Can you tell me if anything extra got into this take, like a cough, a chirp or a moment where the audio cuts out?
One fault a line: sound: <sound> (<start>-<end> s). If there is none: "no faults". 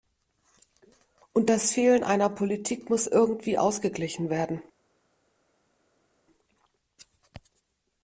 no faults